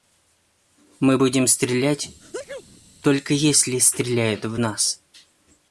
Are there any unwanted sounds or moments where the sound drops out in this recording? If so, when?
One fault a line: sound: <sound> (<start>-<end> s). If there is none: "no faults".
sound: sneeze (2.2-2.8 s)